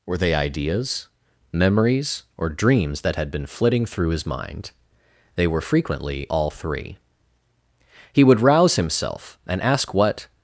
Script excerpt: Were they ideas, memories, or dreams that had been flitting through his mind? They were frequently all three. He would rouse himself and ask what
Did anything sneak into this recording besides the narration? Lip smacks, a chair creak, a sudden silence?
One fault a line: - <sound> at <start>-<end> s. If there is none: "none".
none